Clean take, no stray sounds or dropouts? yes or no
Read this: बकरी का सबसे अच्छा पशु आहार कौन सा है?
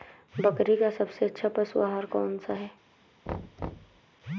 no